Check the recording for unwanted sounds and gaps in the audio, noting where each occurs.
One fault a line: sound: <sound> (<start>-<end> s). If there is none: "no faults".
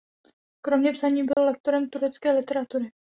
sound: dropout (1.3-1.4 s)